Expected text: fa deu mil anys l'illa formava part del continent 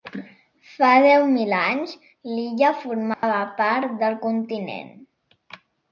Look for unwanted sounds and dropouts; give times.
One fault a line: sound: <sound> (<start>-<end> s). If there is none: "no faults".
sound: dropout (3.1-3.2 s)